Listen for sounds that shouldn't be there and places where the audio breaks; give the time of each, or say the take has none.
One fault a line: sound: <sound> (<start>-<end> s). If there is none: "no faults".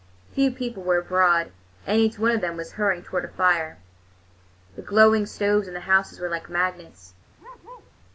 sound: bark (7.4-7.9 s)